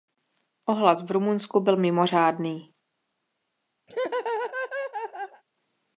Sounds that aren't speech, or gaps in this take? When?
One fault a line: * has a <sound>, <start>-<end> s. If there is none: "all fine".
* has a laugh, 3.9-5.4 s